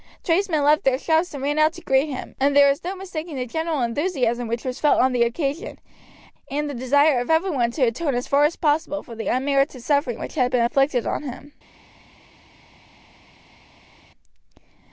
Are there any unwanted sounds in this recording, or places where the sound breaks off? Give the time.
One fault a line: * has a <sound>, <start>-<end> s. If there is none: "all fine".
all fine